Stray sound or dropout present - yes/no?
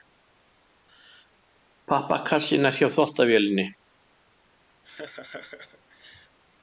yes